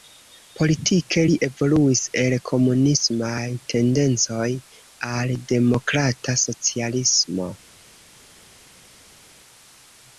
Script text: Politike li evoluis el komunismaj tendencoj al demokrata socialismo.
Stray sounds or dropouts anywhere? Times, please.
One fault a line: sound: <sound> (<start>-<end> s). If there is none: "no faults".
no faults